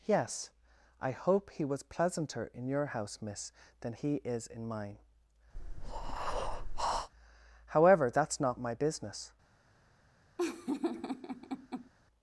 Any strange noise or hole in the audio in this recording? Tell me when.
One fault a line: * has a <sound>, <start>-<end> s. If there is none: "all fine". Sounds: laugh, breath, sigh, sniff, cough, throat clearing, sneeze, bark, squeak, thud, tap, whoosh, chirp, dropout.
* has a breath, 5.5-7.1 s
* has a laugh, 10.4-11.9 s